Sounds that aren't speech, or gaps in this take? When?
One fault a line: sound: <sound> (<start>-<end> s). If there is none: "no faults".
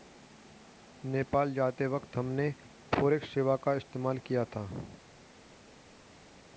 no faults